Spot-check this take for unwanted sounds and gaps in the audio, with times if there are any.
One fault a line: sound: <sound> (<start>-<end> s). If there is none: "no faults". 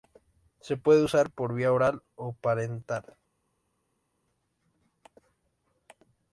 no faults